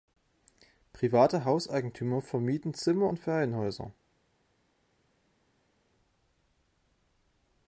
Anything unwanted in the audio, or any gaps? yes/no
no